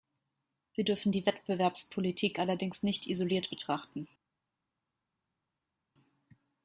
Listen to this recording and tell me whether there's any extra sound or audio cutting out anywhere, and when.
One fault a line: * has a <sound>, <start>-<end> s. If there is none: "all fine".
all fine